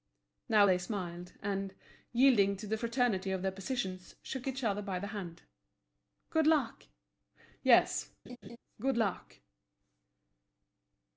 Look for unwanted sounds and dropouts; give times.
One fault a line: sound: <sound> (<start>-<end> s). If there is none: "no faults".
sound: laugh (8.3-8.6 s)